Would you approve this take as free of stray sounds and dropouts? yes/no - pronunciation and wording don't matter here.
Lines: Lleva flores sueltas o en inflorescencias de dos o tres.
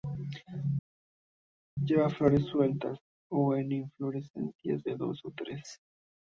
yes